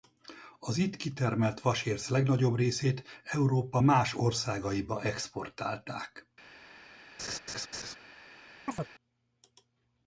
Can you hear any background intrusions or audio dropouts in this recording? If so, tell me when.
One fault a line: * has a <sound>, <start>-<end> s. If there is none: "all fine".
* has a laugh, 7.2-8.0 s
* has a chirp, 8.7-8.9 s